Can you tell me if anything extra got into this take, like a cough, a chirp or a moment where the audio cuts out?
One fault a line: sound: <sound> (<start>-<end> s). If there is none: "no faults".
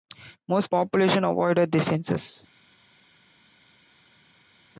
no faults